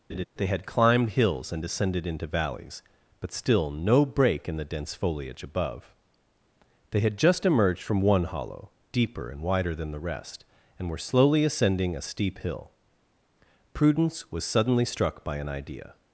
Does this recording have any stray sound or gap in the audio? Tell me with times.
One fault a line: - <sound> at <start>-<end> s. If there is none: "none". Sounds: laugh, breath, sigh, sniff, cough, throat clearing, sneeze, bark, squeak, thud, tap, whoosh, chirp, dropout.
- laugh at 0.1-0.2 s